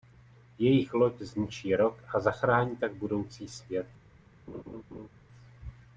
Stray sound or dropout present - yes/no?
yes